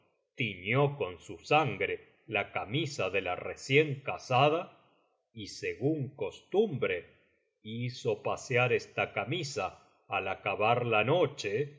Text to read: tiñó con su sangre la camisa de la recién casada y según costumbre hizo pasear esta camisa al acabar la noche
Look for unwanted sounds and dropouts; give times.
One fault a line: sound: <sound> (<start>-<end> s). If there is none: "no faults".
no faults